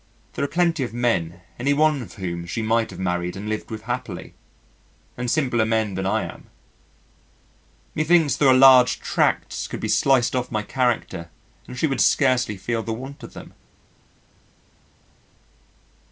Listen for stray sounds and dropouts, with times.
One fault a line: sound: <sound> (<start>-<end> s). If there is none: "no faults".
no faults